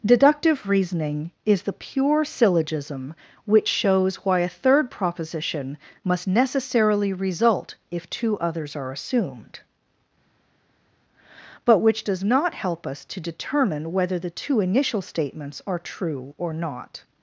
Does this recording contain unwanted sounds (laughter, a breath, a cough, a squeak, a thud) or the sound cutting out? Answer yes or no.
no